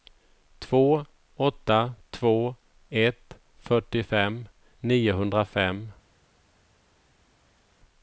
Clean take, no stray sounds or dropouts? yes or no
yes